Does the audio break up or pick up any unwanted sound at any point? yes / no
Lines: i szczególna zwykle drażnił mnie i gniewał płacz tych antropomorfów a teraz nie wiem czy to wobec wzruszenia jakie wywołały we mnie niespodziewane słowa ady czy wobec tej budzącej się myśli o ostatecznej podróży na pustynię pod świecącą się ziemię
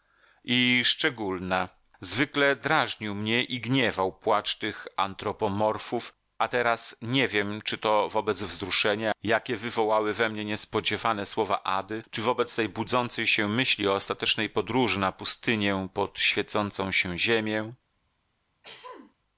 yes